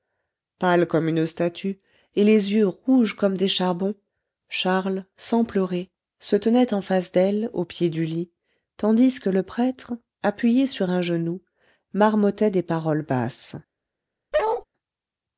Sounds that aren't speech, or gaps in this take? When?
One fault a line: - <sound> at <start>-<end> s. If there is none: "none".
- bark at 14.3-14.6 s